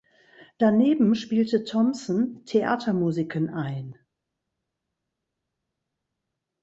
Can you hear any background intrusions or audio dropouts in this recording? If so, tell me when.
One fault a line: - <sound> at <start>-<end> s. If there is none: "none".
none